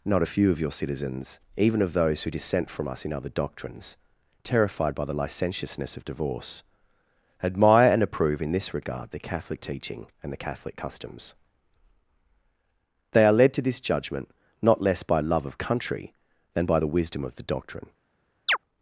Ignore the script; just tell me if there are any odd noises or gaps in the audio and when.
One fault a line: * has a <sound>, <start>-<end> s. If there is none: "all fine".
* has a chirp, 18.5-18.6 s